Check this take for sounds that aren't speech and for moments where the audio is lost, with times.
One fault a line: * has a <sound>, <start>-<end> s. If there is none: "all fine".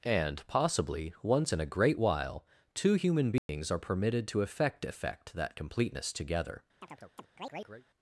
* has a dropout, 3.4-3.5 s
* has a chirp, 6.8-7.9 s